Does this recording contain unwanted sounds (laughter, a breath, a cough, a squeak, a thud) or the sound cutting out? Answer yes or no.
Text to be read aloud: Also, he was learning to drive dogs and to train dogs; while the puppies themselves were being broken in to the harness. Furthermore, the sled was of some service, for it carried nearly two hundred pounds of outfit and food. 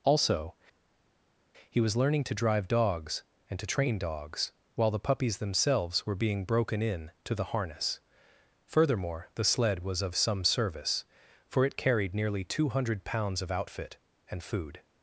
no